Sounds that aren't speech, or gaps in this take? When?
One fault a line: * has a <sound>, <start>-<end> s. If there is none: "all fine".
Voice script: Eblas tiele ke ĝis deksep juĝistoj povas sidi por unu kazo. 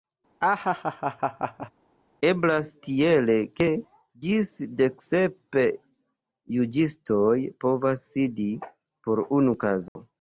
* has a laugh, 0.4-1.7 s
* has a dropout, 9.9-10.0 s